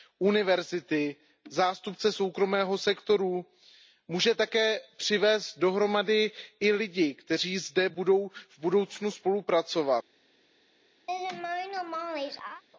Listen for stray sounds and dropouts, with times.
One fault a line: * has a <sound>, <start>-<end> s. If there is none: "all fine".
* has a laugh, 11.1-12.6 s